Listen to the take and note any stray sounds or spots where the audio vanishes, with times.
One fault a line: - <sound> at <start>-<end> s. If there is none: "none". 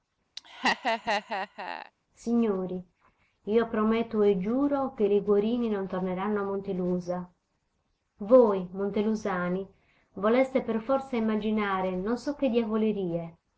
- laugh at 0.4-1.9 s